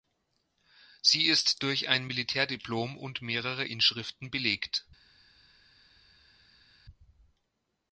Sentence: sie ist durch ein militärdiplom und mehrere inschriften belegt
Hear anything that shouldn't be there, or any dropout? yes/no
no